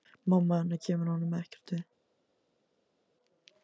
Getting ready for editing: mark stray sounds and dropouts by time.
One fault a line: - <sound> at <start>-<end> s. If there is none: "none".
none